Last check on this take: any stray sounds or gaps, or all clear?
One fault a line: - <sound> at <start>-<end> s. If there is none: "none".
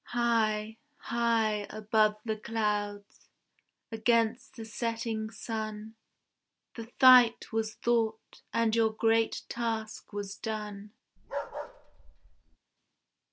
- bark at 11.2-12.6 s